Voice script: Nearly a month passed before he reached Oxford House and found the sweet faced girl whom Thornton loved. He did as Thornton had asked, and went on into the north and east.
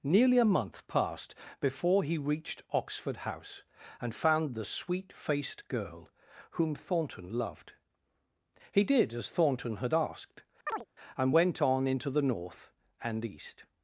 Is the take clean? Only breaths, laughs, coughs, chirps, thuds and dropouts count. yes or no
no